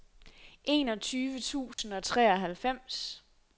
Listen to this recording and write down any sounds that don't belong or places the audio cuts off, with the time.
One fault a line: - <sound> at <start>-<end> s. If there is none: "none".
- dropout at 1.7-1.8 s